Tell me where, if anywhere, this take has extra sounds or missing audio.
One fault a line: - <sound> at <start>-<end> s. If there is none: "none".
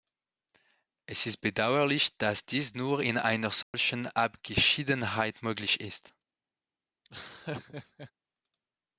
- dropout at 3.6-3.7 s
- laugh at 7.0-8.1 s